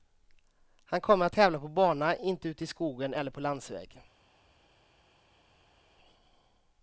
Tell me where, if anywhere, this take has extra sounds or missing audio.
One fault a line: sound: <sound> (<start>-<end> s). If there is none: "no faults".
no faults